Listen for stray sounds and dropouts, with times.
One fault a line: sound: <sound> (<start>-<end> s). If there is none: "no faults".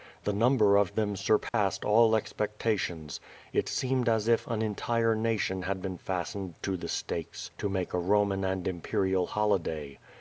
sound: dropout (1.5-1.5 s)